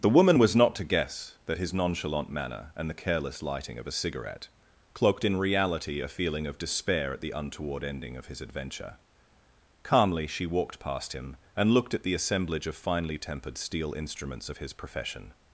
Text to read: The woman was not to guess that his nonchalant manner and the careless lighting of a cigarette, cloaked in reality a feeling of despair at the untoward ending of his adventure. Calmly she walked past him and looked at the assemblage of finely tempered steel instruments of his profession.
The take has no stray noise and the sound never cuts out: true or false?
true